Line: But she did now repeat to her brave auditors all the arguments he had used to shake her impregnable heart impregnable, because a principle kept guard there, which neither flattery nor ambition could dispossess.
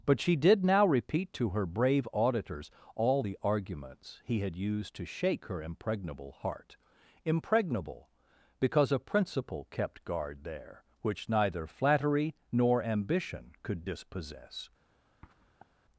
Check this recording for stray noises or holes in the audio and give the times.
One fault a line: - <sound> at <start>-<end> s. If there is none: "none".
- sniff at 15.2-15.7 s